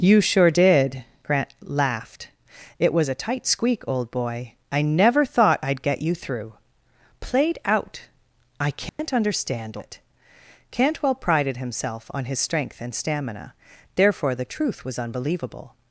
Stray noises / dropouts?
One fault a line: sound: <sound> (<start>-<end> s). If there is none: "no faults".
sound: dropout (8.9-9.0 s)